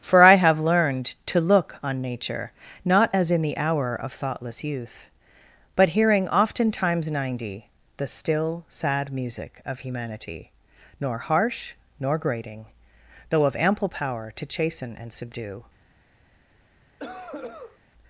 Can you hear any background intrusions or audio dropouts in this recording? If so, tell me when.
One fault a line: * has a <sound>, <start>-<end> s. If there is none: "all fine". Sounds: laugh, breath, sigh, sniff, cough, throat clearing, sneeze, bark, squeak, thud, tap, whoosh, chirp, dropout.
* has a cough, 17.0-17.8 s